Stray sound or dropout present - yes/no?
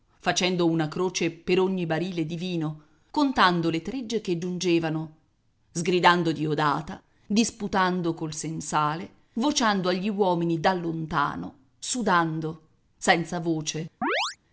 yes